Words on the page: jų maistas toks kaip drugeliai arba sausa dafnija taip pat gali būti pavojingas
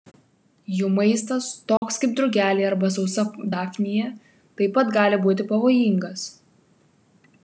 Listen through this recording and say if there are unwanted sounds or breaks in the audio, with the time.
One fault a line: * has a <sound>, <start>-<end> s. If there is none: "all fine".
* has a dropout, 1.8-1.8 s